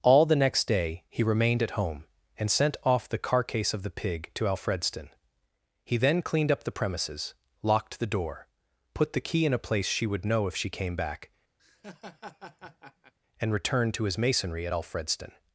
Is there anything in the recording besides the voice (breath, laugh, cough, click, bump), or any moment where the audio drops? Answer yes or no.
yes